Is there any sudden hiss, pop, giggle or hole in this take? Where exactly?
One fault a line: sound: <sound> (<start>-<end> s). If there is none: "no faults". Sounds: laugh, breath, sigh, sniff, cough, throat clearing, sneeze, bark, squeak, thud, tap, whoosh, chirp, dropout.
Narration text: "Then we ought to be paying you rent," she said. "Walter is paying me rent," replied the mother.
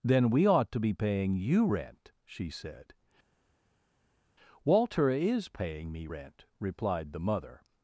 no faults